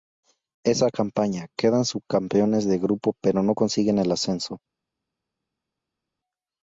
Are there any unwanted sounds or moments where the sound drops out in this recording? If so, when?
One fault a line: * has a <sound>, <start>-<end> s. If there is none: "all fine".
all fine